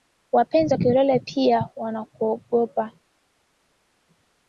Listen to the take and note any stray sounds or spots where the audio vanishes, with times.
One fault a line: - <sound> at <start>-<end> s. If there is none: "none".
none